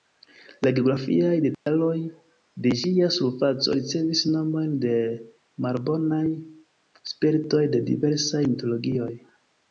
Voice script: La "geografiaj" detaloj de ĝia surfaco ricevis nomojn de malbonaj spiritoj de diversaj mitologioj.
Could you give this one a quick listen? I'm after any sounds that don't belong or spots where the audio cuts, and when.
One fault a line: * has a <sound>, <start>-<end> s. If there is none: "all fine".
* has a dropout, 1.5-1.7 s